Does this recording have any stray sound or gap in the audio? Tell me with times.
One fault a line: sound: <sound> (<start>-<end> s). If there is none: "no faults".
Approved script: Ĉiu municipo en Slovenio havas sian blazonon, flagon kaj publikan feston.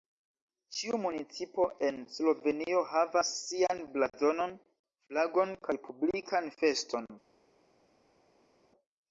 no faults